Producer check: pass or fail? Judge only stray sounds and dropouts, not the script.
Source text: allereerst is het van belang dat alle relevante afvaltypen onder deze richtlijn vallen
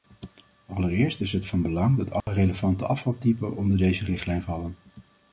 fail